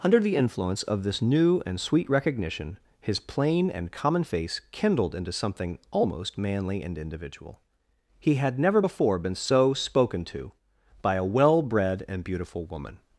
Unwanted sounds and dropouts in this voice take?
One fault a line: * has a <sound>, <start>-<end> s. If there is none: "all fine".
all fine